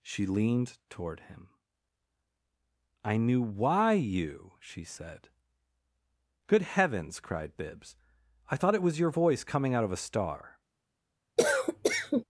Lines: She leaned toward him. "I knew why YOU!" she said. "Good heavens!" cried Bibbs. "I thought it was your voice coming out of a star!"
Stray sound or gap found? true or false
true